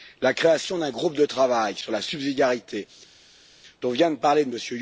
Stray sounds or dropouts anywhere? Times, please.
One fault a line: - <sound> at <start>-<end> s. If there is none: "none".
none